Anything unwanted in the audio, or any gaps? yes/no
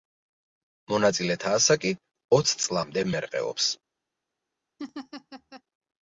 yes